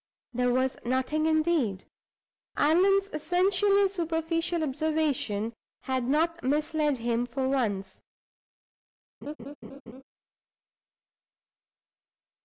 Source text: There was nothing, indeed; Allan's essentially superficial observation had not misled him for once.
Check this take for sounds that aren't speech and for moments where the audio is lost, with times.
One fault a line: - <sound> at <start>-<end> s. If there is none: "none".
- laugh at 9.2-10.0 s